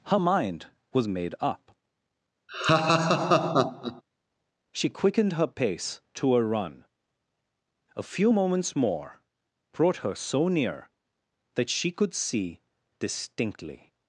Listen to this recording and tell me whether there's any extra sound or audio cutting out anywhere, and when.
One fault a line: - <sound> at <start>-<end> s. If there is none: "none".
- laugh at 2.5-4.0 s